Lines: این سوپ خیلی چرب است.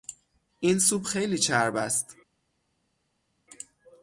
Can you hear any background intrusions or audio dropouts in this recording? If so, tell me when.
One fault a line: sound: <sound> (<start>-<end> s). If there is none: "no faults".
no faults